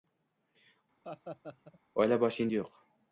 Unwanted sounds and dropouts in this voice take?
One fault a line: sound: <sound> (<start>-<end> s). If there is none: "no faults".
sound: laugh (1.0-1.8 s)